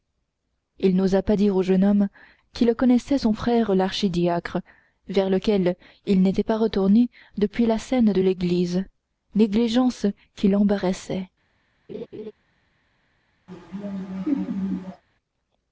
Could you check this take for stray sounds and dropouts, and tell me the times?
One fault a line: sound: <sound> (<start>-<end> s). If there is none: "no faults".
sound: laugh (11.9-12.3 s)
sound: laugh (13.5-15.0 s)